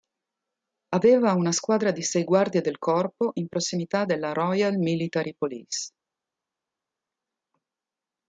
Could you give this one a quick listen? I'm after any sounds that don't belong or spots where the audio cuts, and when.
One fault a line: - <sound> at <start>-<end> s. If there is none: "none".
none